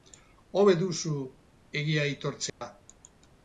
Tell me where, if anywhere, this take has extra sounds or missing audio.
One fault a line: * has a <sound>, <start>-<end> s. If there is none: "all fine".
* has a dropout, 2.5-2.6 s